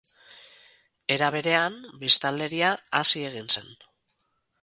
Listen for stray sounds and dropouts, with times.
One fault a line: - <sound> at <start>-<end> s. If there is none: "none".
none